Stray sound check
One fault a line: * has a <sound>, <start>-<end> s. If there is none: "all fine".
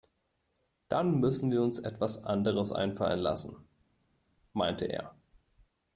all fine